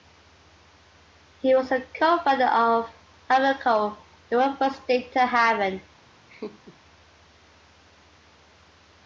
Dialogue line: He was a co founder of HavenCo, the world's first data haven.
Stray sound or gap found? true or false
true